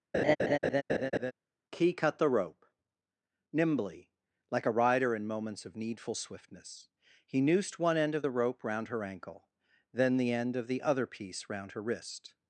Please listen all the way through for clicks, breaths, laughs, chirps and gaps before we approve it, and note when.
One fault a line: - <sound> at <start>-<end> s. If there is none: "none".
- laugh at 0.1-1.3 s